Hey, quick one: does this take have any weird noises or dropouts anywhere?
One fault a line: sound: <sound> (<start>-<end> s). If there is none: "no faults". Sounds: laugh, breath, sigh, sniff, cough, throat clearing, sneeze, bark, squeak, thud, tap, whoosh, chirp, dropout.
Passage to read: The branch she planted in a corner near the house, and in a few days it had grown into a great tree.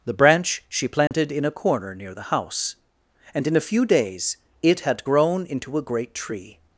sound: dropout (1.1-1.1 s)